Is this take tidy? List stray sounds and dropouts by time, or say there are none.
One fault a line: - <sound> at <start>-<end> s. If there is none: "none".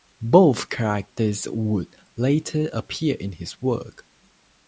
none